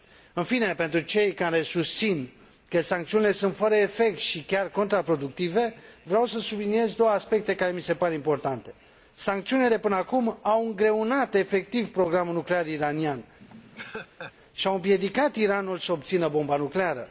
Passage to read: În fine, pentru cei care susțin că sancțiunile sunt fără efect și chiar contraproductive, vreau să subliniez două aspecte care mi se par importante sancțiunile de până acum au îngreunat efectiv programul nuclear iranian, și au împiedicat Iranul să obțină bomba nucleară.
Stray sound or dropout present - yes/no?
yes